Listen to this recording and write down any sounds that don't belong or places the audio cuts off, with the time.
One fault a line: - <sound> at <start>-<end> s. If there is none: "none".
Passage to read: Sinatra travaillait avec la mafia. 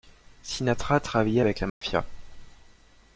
- dropout at 1.7-1.8 s